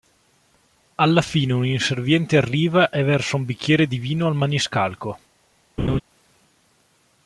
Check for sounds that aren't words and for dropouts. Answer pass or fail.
fail